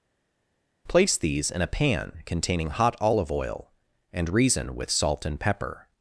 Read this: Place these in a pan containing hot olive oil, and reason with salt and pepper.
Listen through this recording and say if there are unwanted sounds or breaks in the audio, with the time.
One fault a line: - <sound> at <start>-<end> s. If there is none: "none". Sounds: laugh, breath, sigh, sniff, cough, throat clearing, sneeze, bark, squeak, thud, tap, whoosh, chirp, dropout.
none